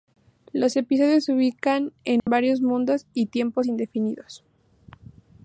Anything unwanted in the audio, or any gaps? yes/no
yes